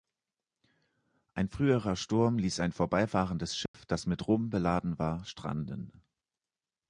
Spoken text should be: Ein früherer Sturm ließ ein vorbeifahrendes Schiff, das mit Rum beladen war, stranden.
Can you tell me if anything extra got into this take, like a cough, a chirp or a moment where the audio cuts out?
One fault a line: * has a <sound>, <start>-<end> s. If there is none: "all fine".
* has a dropout, 3.7-3.7 s